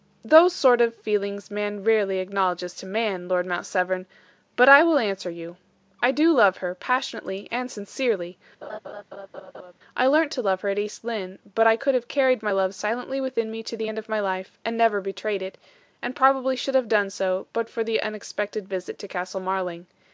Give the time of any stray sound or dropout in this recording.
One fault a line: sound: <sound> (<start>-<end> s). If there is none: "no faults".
sound: laugh (8.6-9.7 s)